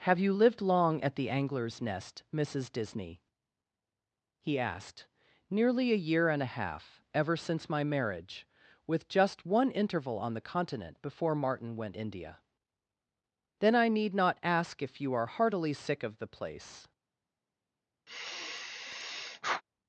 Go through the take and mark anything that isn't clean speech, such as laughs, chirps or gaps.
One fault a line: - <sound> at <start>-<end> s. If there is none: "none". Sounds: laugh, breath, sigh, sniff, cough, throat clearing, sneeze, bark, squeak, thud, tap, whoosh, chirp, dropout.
- sigh at 18.1-19.6 s